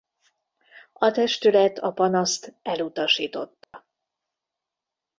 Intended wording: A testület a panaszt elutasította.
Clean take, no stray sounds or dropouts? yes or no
no